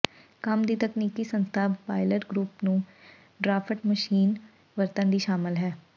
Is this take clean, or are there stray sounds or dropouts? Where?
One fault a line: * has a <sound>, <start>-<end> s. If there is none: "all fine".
all fine